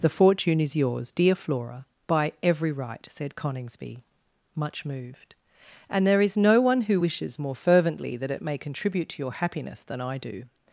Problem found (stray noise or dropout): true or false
false